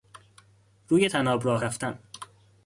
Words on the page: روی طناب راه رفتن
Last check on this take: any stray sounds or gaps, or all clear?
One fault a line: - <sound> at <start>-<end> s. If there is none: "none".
none